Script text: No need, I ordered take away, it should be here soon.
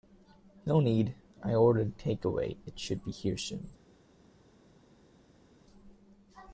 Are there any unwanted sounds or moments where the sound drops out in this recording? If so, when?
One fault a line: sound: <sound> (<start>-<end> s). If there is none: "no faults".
no faults